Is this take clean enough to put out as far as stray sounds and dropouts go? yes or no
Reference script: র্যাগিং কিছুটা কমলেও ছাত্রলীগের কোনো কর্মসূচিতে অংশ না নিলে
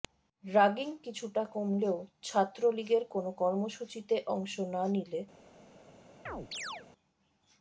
no